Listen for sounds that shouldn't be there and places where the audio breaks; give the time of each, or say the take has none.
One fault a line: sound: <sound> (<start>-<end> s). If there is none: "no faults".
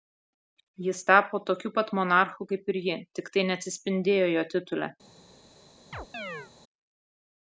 sound: chirp (5.9-6.5 s)